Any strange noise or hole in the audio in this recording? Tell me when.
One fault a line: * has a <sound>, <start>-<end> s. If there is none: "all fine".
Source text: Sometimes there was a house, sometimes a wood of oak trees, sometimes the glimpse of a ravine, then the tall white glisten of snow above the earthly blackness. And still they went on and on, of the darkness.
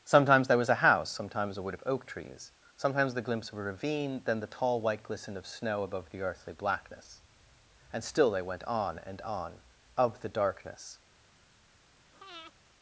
* has a breath, 12.1-12.5 s